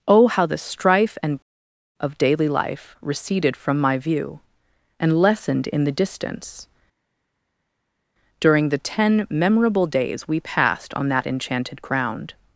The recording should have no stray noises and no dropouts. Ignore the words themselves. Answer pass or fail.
pass